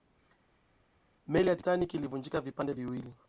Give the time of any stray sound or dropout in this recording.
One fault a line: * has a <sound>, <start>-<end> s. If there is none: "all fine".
all fine